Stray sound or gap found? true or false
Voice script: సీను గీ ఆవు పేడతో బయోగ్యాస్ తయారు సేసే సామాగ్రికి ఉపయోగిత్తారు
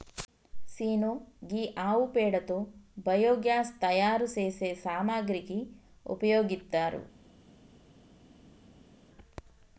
false